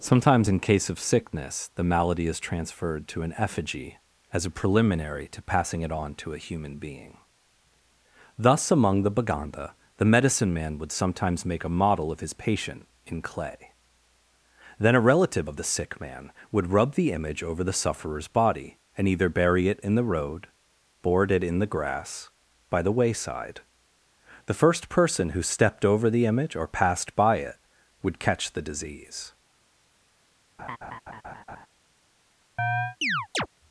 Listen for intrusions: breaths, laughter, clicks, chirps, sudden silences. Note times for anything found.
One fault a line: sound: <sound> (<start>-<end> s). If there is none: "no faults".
sound: laugh (30.6-31.7 s)
sound: chirp (32.6-33.5 s)